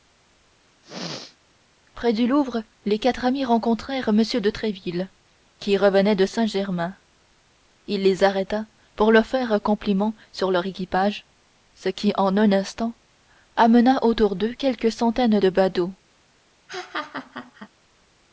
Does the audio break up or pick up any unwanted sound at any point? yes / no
yes